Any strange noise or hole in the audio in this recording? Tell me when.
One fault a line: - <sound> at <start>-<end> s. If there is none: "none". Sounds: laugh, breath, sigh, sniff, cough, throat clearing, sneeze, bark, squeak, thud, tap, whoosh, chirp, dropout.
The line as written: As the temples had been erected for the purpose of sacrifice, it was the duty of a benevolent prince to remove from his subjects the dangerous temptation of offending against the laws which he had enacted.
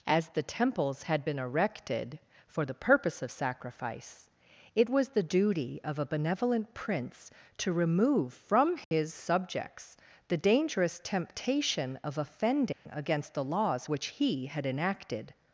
- dropout at 8.8-8.9 s
- dropout at 12.7-12.9 s